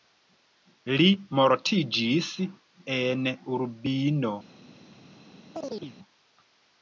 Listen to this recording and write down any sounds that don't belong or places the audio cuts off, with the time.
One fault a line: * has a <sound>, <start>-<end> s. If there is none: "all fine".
* has a chirp, 5.5-6.0 s